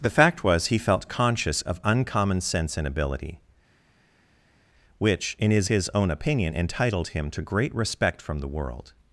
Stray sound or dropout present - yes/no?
no